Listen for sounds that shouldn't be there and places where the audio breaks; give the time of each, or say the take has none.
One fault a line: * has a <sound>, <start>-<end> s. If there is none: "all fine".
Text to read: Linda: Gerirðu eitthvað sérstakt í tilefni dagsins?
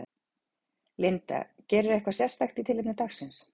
all fine